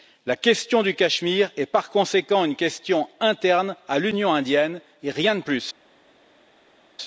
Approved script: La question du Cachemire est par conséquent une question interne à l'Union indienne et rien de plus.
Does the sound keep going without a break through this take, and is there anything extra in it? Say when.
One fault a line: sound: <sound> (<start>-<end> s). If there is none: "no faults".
no faults